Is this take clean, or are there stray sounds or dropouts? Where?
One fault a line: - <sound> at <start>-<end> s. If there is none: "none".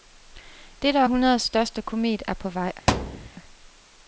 - thud at 2.9-3.3 s